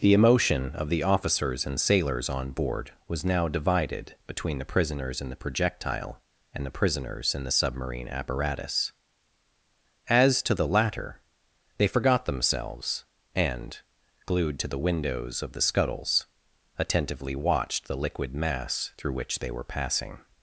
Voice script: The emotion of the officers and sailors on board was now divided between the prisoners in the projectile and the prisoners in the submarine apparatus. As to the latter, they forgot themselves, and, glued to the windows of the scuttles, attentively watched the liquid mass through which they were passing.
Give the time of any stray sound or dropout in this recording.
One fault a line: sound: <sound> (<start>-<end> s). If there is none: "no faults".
no faults